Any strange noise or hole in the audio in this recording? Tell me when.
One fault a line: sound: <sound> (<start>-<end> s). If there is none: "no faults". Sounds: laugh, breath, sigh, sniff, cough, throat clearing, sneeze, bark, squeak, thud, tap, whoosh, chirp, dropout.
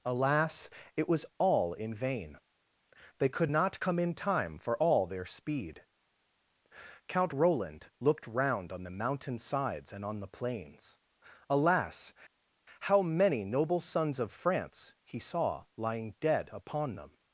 no faults